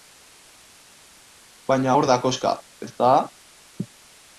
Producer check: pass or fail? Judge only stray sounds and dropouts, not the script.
pass